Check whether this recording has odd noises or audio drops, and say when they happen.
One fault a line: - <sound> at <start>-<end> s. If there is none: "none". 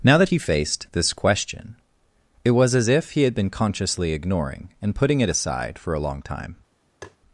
- tap at 7.0-7.2 s